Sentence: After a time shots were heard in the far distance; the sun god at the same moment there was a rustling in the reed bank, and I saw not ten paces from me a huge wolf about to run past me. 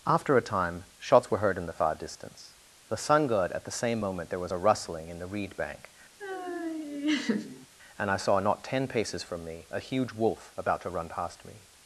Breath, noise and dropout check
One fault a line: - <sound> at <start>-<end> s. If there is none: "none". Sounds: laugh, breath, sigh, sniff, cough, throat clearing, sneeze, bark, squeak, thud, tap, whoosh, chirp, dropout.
- laugh at 6.2-7.7 s